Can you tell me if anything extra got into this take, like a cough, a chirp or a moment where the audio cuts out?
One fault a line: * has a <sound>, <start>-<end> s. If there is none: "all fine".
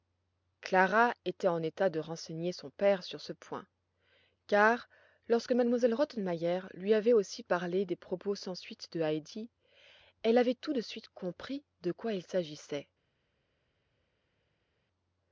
all fine